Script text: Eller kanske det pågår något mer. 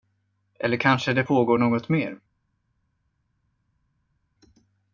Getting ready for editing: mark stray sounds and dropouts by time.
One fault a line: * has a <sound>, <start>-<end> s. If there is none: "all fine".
all fine